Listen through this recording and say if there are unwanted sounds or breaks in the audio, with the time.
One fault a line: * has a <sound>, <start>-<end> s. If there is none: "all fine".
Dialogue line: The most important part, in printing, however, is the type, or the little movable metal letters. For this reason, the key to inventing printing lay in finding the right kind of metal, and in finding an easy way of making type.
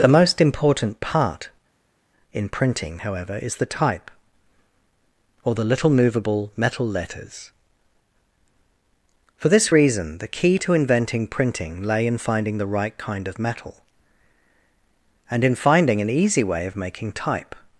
all fine